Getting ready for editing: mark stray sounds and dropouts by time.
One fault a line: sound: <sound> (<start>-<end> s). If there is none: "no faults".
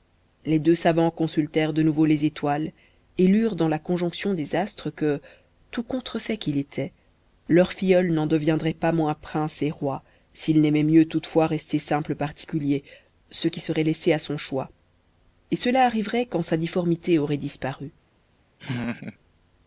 sound: laugh (18.6-19.2 s)